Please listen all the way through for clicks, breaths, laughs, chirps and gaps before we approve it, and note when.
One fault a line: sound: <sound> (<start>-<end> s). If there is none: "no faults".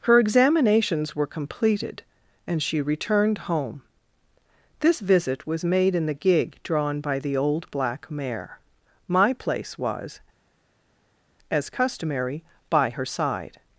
no faults